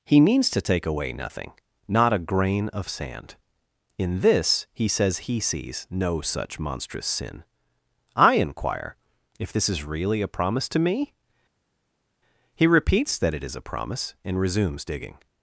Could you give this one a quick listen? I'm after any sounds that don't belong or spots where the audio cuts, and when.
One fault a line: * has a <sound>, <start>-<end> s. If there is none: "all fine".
all fine